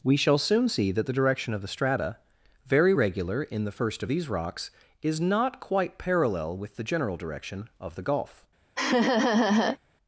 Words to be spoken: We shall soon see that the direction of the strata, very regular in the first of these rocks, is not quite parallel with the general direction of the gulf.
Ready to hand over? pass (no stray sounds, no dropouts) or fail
fail